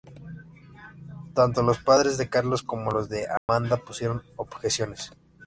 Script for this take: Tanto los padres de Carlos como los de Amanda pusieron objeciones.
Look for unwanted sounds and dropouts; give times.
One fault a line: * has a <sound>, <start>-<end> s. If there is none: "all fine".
* has a dropout, 3.4-3.5 s